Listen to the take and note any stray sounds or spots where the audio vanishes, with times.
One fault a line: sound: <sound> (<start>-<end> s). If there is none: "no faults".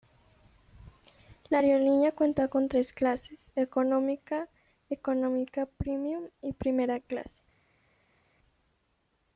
no faults